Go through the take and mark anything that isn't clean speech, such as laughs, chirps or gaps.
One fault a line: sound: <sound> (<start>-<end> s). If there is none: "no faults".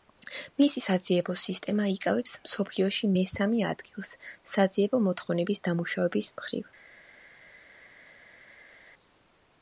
no faults